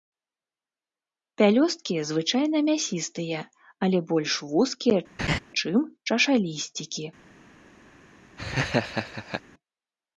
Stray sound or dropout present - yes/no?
yes